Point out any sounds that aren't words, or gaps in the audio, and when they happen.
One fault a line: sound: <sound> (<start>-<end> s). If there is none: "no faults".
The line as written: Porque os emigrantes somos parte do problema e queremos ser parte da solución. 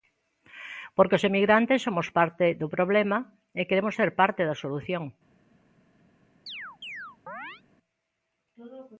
sound: chirp (6.5-7.6 s)